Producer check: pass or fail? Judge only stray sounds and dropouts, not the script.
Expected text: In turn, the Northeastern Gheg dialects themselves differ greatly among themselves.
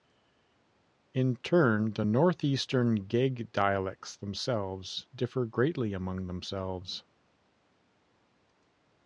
pass